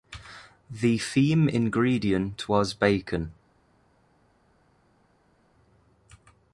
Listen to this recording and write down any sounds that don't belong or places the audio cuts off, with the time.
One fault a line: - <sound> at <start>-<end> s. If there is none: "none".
none